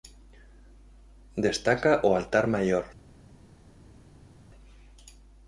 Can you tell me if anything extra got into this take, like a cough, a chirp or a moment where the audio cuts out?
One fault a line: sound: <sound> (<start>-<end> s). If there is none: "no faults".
no faults